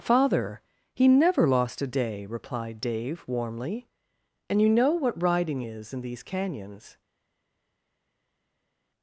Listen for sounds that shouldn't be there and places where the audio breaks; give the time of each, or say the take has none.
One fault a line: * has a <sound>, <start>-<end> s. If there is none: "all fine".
all fine